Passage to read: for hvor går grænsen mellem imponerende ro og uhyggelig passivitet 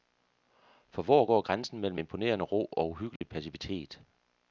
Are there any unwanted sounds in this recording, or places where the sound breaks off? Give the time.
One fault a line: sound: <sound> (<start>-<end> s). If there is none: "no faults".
sound: dropout (3.2-3.2 s)